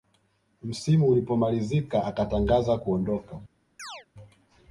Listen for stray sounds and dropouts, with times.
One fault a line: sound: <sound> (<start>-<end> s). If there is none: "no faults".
sound: chirp (3.8-4.1 s)